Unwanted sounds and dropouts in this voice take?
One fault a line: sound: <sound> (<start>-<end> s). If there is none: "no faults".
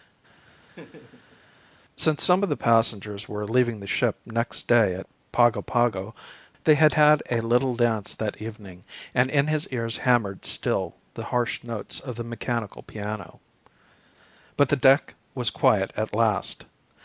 sound: laugh (0.5-1.4 s)